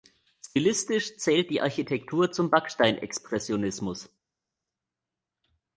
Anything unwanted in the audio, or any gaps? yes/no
no